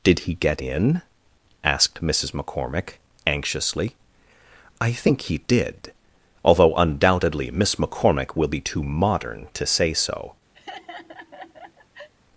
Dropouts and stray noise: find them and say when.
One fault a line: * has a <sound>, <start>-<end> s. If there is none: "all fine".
* has a laugh, 10.5-12.1 s